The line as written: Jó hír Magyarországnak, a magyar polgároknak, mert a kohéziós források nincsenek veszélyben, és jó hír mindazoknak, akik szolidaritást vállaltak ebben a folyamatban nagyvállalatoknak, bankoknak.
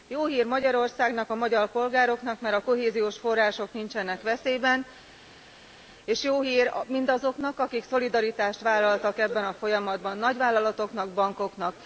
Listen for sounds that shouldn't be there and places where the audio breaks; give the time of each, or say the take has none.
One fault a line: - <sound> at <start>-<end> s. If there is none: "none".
none